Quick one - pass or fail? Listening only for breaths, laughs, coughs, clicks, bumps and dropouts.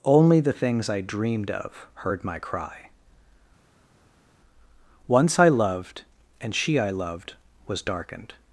pass